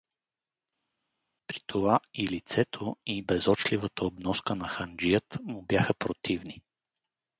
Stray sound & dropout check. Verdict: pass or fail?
pass